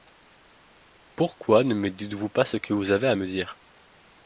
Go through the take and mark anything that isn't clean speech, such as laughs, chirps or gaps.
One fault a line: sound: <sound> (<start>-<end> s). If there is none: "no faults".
no faults